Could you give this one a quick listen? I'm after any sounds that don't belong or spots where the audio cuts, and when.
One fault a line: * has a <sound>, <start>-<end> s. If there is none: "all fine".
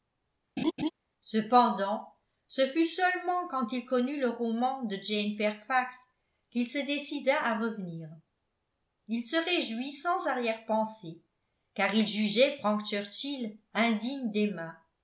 * has a laugh, 0.6-0.9 s